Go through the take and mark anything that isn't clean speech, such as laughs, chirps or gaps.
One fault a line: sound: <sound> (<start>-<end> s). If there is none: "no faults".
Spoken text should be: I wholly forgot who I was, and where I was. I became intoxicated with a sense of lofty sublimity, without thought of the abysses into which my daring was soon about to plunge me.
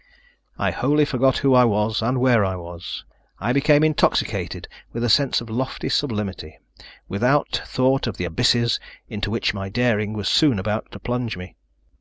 no faults